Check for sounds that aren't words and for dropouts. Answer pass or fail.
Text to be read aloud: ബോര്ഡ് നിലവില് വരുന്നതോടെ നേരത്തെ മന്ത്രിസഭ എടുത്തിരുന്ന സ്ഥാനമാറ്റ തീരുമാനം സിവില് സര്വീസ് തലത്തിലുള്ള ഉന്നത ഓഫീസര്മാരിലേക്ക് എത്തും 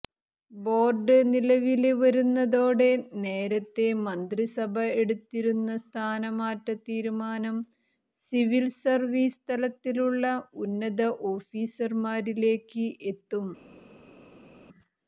pass